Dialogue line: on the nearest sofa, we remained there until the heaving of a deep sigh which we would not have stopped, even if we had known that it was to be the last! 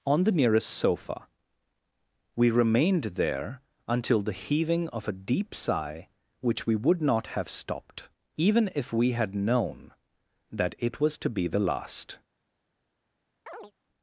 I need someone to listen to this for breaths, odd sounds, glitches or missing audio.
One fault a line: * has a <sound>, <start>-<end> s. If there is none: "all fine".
* has a chirp, 13.5-13.7 s